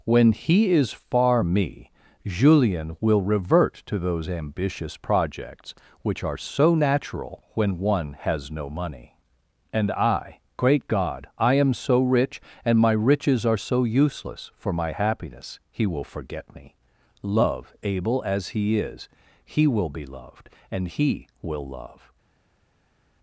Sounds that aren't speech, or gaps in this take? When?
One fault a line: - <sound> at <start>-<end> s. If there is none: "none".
none